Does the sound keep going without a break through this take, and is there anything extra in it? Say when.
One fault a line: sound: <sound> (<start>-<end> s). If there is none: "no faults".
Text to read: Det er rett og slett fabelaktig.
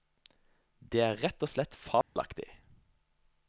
sound: dropout (2.0-2.2 s)